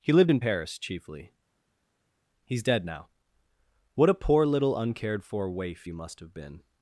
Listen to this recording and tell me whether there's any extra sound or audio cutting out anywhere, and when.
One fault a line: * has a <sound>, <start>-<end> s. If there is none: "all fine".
all fine